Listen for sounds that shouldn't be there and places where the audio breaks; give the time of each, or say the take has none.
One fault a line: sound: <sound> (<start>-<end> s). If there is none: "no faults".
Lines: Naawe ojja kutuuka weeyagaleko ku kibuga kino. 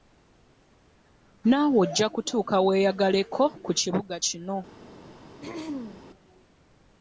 sound: throat clearing (5.4-6.0 s)